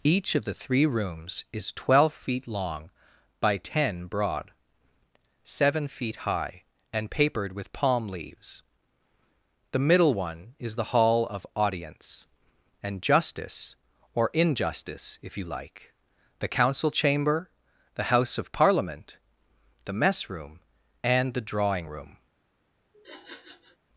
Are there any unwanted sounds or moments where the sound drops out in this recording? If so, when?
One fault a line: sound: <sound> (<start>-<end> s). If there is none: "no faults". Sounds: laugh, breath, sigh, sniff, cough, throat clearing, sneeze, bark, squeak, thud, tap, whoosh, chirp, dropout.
sound: sniff (22.9-23.8 s)